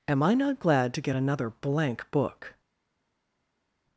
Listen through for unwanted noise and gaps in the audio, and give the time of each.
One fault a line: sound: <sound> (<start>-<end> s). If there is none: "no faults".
no faults